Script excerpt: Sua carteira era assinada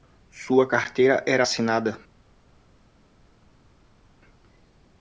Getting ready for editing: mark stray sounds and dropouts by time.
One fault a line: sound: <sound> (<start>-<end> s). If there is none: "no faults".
no faults